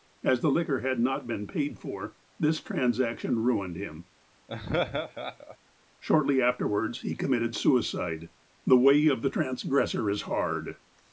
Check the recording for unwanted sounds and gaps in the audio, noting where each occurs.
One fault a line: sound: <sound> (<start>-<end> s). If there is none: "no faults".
sound: laugh (4.5-5.6 s)